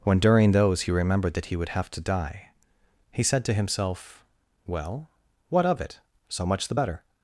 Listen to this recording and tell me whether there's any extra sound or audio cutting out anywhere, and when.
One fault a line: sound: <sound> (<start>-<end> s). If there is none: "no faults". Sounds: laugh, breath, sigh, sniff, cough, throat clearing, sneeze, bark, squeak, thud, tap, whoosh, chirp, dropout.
no faults